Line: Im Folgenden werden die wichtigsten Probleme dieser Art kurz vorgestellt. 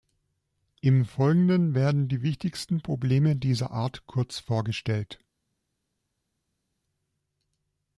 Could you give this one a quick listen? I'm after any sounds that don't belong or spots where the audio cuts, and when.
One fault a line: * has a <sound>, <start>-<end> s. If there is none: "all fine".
all fine